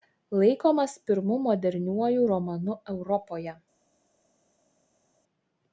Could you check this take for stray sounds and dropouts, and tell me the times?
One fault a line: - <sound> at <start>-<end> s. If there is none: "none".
none